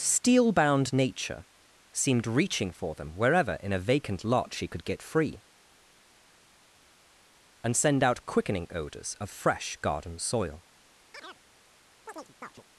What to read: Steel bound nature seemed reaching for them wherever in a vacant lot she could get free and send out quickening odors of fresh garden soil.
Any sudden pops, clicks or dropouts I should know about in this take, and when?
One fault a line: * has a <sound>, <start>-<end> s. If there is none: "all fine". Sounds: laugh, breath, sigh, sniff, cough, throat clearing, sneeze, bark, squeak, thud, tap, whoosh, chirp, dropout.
* has a chirp, 11.1-11.4 s
* has a chirp, 12.1-12.6 s